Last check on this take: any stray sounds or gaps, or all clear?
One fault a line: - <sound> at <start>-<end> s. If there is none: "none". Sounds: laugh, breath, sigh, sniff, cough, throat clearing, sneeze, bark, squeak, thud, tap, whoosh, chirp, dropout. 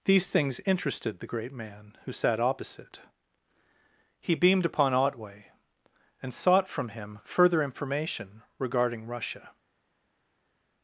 none